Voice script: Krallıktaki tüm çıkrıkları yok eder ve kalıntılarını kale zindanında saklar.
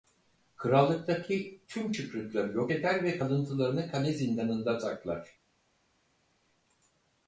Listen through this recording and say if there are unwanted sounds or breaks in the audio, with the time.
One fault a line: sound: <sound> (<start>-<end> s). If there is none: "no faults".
no faults